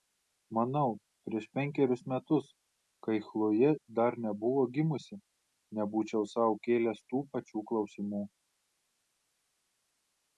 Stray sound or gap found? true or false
false